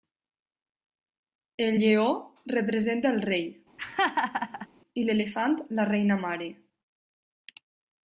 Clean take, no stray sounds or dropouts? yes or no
no